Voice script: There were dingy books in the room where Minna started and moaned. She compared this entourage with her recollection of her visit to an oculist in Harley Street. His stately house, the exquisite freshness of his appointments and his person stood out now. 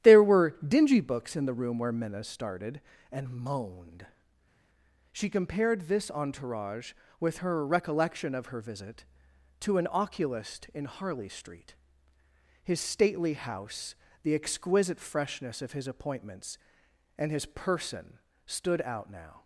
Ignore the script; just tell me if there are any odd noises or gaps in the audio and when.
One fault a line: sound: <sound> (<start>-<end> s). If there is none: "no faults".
no faults